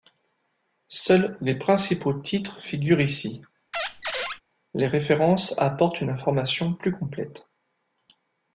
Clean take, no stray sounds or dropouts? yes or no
no